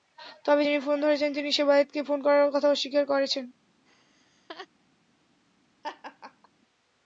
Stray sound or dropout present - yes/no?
yes